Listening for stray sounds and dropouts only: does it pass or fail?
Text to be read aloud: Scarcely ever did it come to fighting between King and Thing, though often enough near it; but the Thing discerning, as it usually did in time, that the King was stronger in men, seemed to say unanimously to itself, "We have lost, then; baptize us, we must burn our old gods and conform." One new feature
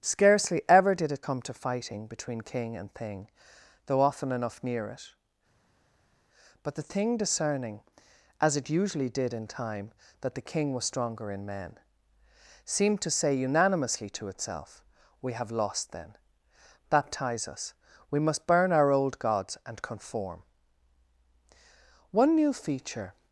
pass